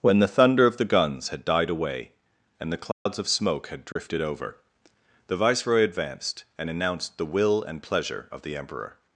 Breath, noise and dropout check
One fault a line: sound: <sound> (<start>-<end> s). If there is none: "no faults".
sound: dropout (2.9-3.1 s)
sound: dropout (3.9-4.0 s)